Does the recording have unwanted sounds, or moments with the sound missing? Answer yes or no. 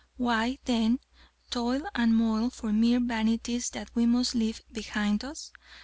no